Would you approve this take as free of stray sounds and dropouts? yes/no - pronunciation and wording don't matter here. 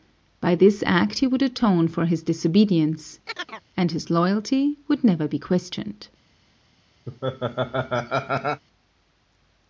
no